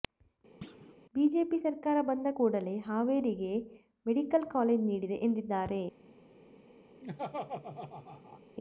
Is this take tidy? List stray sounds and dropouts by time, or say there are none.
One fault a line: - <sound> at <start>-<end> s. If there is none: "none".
- thud at 0.6-0.9 s
- laugh at 7.0-8.4 s